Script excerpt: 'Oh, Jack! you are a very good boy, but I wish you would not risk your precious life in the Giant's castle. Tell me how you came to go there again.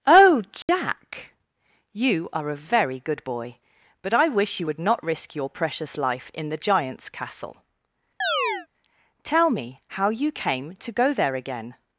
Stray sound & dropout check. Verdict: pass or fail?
fail